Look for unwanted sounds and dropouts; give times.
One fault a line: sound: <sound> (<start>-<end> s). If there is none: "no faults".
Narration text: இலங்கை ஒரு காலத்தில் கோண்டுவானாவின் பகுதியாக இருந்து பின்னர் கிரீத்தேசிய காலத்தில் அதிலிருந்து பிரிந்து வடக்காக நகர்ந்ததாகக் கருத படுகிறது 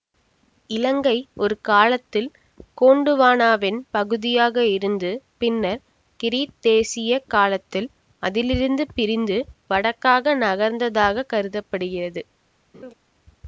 sound: laugh (12.7-12.9 s)